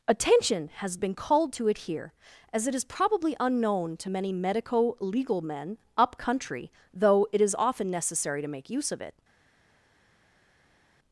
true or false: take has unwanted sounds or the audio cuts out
false